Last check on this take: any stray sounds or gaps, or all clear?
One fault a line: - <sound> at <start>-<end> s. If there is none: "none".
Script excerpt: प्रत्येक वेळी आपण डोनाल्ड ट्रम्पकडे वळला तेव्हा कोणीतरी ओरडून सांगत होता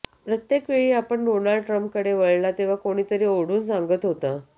none